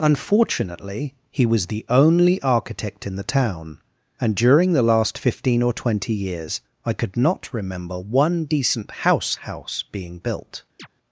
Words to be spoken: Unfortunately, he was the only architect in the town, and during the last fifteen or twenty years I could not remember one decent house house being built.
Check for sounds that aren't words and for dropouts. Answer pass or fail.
fail